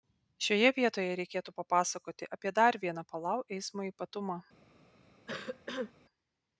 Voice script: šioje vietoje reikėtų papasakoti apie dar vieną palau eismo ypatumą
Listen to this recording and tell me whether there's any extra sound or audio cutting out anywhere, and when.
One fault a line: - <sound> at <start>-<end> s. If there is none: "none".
- cough at 5.3-5.9 s